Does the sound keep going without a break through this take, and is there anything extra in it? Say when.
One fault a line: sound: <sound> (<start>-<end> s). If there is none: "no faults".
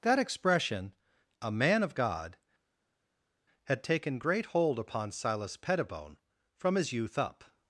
no faults